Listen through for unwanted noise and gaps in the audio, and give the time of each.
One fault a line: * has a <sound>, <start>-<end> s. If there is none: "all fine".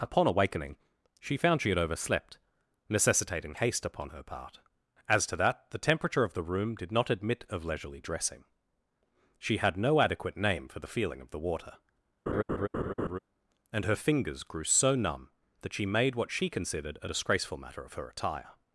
* has a laugh, 12.3-13.2 s